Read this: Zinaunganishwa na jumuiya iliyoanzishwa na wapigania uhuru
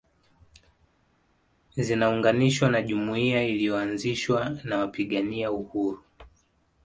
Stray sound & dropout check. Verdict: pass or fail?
pass